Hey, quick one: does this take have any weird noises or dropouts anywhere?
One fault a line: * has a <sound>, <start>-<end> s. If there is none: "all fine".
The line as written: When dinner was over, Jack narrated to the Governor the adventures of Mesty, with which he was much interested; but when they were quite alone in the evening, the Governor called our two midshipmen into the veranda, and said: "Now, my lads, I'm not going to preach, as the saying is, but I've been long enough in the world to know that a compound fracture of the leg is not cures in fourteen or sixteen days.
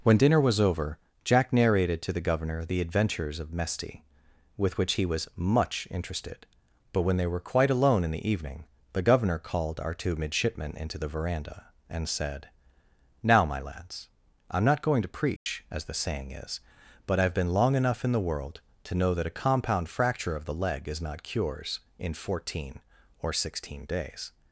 * has a dropout, 15.4-15.5 s